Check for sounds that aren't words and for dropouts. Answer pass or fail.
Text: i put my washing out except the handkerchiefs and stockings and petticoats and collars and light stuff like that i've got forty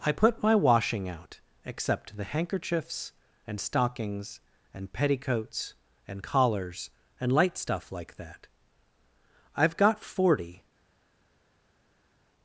pass